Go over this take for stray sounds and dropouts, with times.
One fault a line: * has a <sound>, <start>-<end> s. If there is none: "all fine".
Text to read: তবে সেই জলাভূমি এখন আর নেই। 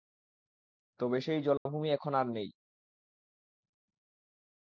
* has a dropout, 1.6-1.7 s